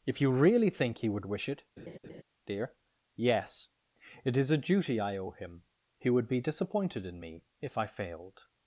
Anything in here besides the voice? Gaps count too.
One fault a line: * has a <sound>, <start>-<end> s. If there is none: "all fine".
* has a laugh, 1.8-2.2 s